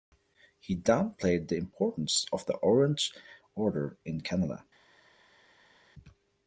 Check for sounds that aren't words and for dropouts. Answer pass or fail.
pass